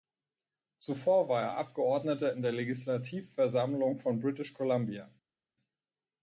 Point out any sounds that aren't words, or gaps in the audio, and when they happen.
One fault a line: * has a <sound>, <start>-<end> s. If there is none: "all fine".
all fine